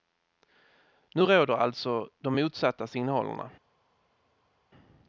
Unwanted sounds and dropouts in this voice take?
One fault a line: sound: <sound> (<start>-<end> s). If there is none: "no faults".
no faults